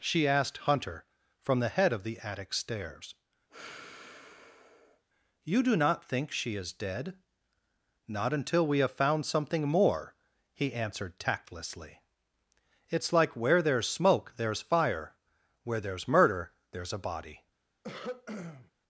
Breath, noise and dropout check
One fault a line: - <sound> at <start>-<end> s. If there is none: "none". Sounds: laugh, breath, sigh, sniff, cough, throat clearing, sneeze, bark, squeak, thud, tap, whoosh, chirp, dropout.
- sigh at 3.5-5.0 s
- throat clearing at 17.8-18.7 s